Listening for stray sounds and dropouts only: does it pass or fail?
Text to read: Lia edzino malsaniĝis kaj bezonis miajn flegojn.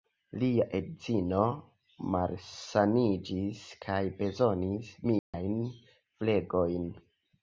fail